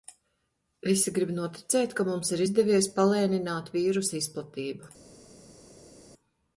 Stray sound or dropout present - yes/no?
no